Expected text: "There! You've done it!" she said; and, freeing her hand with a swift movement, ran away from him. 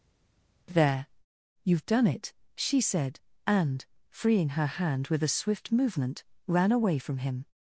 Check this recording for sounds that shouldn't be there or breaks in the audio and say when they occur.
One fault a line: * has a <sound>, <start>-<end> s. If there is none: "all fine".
all fine